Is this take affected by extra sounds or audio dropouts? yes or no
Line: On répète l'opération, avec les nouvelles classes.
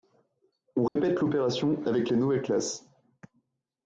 yes